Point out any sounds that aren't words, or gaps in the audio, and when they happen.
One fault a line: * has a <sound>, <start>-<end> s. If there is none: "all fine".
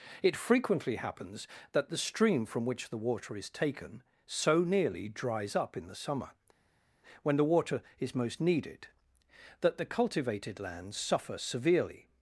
all fine